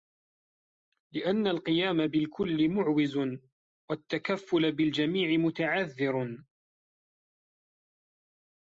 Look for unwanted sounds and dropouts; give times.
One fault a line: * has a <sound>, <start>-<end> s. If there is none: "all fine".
all fine